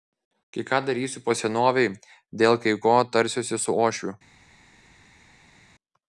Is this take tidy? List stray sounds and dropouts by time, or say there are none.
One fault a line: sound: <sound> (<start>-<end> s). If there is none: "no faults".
no faults